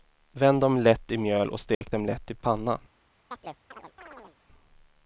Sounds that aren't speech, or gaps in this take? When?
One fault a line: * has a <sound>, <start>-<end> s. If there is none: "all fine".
* has a dropout, 1.7-1.8 s
* has a chirp, 3.3-4.4 s